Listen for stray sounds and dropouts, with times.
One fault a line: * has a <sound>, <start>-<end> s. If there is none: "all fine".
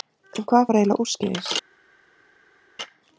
all fine